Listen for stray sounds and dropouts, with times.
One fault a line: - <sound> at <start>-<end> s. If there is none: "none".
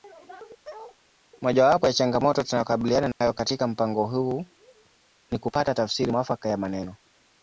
- bark at 0.6-1.0 s
- dropout at 3.1-3.2 s